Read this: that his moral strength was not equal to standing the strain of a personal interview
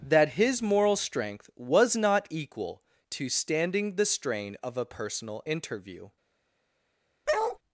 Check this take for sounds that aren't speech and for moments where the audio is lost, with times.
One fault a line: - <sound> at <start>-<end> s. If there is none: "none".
- bark at 7.3-7.6 s